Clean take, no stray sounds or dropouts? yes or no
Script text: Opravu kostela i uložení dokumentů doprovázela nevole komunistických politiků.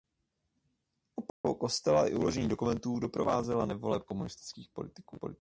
no